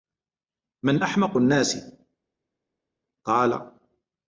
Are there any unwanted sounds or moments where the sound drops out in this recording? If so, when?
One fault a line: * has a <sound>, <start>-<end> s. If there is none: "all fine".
all fine